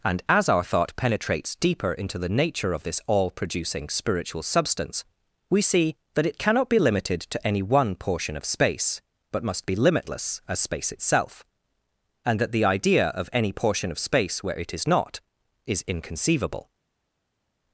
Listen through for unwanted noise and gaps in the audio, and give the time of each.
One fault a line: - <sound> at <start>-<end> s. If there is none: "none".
none